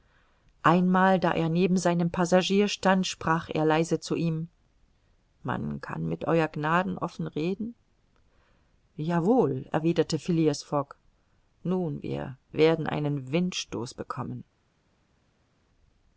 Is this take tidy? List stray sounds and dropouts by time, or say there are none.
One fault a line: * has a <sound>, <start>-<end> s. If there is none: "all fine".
all fine